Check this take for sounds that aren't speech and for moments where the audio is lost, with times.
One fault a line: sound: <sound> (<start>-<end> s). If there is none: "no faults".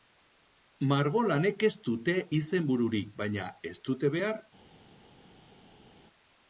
no faults